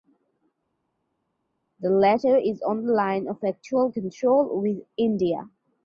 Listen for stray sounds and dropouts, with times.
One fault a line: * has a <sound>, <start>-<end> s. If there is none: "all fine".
all fine